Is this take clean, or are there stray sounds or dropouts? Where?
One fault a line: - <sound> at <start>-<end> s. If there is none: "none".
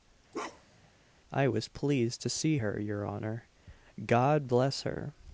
- bark at 0.3-0.9 s